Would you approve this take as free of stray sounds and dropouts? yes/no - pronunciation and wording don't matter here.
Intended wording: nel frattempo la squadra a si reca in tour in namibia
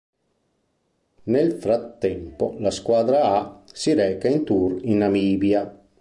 yes